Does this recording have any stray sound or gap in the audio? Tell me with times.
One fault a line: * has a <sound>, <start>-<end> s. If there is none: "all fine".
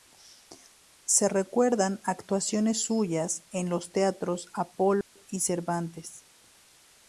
* has a dropout, 5.0-5.2 s